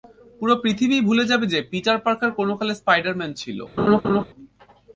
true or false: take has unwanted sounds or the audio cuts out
true